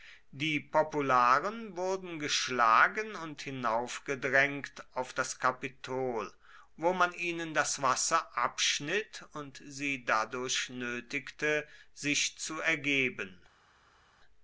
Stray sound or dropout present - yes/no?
no